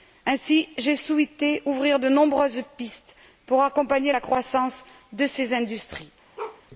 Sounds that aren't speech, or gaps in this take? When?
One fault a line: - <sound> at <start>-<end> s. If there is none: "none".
- bark at 6.4-6.6 s